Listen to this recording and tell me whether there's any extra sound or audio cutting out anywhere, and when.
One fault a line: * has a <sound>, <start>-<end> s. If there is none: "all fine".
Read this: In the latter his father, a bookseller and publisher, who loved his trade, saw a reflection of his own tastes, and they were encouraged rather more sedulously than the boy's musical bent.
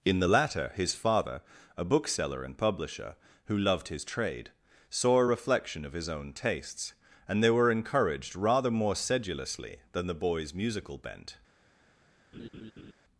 * has a laugh, 12.3-12.9 s